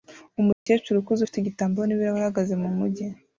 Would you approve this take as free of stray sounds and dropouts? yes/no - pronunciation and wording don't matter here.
no